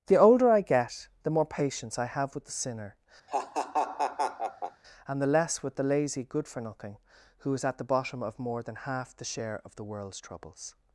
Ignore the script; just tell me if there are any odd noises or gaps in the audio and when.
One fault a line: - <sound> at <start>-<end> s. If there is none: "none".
- laugh at 3.3-4.8 s